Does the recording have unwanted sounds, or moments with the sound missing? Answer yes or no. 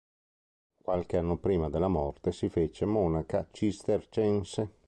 no